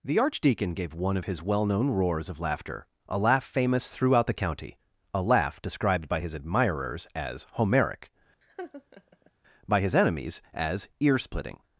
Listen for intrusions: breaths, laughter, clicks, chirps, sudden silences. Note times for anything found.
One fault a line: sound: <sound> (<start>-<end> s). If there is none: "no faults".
sound: laugh (8.4-9.3 s)